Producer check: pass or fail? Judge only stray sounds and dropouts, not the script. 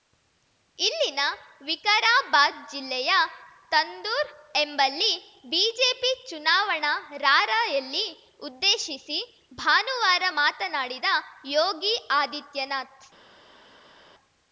pass